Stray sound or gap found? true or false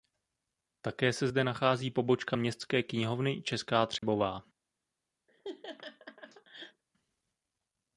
true